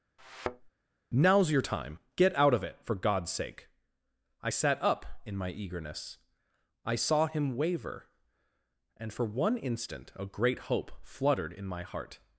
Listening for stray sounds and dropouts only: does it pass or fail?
fail